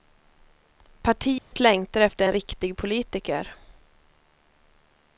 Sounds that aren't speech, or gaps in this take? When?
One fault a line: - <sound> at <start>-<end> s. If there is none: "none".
- dropout at 1.4-1.5 s